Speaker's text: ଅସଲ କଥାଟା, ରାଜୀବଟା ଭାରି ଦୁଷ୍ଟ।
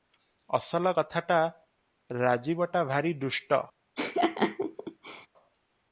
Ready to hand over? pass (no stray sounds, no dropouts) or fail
fail